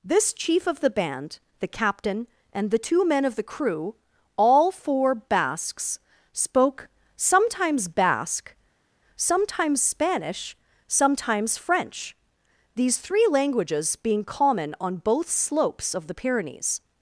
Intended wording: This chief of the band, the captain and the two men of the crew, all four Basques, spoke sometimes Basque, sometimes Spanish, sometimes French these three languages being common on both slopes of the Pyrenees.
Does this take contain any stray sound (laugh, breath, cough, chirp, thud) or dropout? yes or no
no